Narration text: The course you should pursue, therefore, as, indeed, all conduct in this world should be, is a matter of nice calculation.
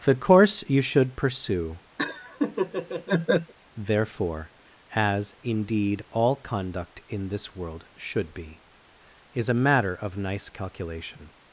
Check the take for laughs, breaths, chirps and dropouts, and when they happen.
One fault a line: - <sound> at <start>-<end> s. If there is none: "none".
- laugh at 2.0-3.5 s